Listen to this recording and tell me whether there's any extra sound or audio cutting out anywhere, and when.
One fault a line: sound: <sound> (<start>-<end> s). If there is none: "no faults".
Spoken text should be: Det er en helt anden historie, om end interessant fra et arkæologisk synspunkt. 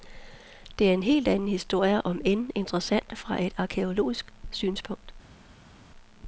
no faults